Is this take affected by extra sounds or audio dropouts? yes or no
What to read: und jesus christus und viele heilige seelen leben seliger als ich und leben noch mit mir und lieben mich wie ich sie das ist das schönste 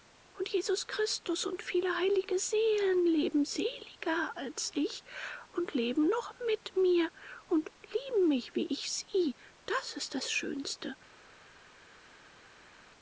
no